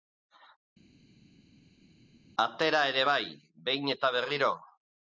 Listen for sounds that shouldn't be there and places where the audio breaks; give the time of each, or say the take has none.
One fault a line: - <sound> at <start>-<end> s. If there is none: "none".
none